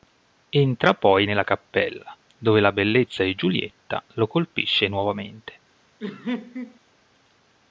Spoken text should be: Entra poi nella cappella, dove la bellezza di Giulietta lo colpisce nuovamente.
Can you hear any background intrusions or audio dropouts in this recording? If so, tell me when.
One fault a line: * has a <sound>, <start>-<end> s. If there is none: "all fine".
* has a laugh, 6.0-6.8 s